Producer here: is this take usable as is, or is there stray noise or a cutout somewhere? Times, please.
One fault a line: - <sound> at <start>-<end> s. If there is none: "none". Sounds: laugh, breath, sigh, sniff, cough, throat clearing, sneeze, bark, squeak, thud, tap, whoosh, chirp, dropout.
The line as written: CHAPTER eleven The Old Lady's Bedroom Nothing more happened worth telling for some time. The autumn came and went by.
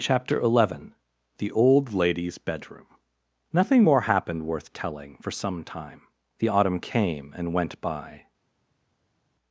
none